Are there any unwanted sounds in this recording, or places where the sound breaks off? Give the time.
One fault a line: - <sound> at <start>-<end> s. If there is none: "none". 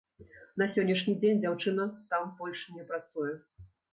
none